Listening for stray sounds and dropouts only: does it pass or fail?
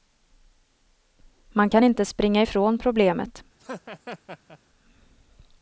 fail